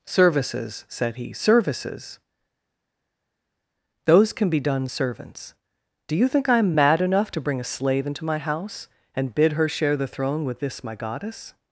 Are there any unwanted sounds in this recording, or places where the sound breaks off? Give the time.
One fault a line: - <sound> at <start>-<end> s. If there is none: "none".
none